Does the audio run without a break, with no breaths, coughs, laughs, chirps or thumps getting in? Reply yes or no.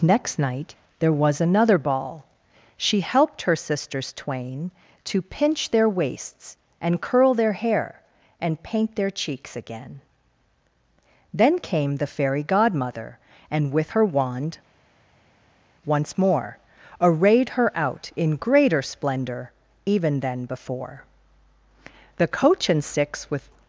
yes